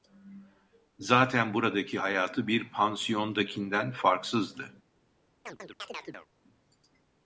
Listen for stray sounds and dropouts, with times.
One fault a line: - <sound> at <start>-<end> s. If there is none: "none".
- chirp at 5.5-6.3 s